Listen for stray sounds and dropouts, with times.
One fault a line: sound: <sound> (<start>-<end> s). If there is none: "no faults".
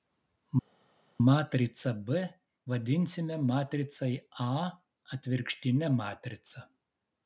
no faults